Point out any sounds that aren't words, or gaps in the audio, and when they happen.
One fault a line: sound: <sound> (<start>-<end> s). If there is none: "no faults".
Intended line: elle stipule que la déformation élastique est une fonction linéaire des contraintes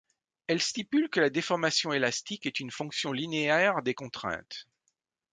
no faults